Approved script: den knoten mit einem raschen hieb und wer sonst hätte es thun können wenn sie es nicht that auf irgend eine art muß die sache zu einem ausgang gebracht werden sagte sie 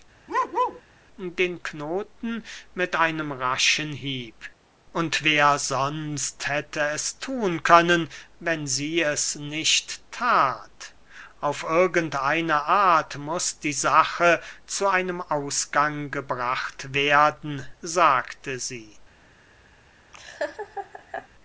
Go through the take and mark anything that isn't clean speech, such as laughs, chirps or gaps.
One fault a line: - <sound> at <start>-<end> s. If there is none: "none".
- bark at 0.3-0.8 s
- laugh at 20.1-21.3 s